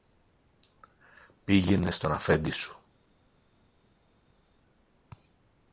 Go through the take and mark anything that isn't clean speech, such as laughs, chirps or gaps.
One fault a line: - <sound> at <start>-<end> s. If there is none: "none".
none